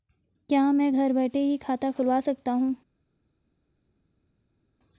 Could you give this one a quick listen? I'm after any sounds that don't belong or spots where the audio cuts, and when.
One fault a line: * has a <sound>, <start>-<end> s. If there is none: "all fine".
all fine